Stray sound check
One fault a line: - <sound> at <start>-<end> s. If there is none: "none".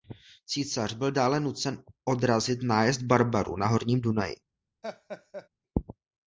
- laugh at 4.8-5.5 s